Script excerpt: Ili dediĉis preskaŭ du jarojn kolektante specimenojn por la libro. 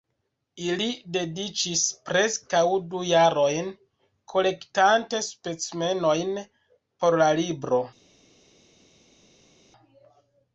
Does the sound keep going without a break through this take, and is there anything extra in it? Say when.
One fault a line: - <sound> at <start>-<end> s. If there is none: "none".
none